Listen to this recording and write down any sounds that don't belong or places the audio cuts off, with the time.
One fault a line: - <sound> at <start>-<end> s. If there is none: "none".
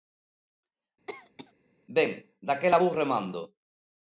- cough at 1.1-1.5 s